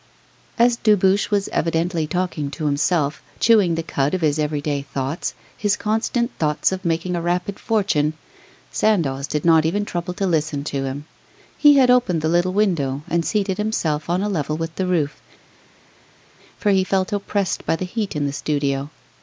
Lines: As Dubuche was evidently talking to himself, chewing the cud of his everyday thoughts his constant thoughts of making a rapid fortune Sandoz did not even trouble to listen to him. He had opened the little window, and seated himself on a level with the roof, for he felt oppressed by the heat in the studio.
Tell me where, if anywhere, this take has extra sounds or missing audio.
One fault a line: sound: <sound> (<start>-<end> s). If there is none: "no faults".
no faults